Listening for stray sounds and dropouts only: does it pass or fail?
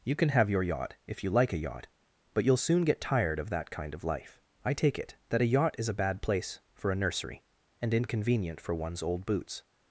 pass